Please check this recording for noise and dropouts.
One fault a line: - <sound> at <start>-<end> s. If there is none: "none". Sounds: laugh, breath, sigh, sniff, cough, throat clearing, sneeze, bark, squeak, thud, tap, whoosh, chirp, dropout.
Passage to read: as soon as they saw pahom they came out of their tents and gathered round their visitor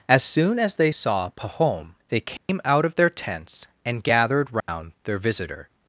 - dropout at 2.4-2.5 s
- dropout at 4.6-4.7 s